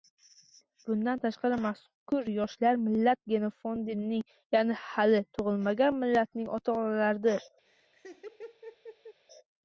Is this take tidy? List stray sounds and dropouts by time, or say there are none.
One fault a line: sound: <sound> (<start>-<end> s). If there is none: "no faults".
sound: laugh (7.7-9.2 s)